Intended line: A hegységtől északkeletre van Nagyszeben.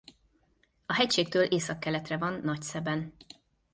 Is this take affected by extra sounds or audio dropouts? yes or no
no